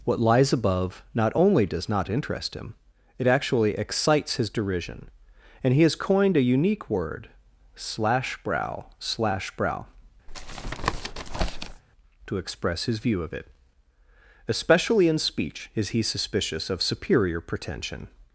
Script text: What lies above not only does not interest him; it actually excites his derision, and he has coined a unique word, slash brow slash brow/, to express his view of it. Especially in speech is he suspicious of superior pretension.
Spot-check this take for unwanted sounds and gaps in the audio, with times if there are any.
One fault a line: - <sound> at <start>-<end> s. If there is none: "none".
- tap at 10.3-11.8 s